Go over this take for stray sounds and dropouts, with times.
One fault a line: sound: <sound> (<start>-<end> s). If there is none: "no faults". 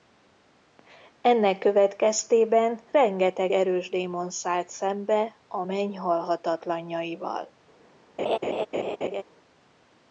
sound: laugh (8.2-9.2 s)